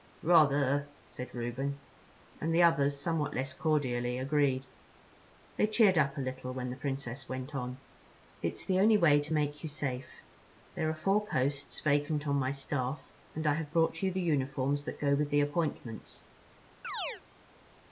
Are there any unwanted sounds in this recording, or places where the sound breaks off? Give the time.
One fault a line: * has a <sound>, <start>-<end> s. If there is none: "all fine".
* has a chirp, 16.8-17.2 s